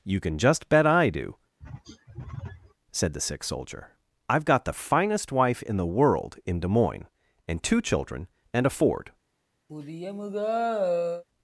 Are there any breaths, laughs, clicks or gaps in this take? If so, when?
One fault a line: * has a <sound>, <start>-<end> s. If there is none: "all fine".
* has a throat clearing, 1.6-2.7 s
* has a sigh, 9.7-11.2 s